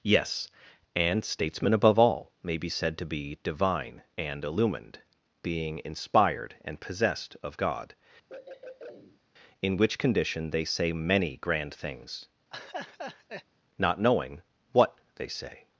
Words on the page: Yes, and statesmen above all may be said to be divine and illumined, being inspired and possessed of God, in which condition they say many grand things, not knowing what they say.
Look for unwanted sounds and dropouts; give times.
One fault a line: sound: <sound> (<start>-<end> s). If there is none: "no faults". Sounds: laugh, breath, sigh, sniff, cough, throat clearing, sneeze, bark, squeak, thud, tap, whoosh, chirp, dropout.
sound: throat clearing (8.3-9.2 s)
sound: laugh (12.5-13.4 s)